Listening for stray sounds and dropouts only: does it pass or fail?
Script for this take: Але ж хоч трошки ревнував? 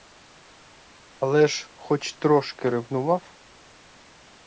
pass